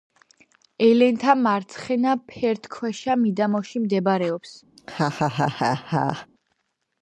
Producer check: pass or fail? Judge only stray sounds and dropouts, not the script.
fail